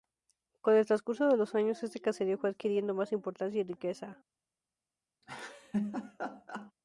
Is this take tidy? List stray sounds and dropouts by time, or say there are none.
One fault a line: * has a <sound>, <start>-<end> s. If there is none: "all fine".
* has a laugh, 5.2-6.7 s